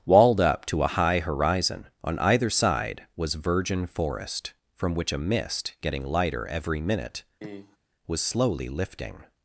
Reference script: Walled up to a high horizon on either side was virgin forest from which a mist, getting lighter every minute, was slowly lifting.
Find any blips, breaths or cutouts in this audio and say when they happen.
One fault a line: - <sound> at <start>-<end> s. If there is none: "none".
- cough at 7.4-7.8 s